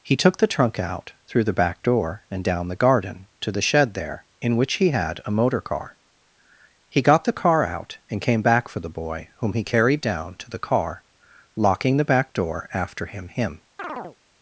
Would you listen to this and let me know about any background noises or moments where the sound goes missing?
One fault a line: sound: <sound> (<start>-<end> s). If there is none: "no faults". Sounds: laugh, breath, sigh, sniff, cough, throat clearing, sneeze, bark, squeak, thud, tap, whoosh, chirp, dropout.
sound: chirp (13.8-14.2 s)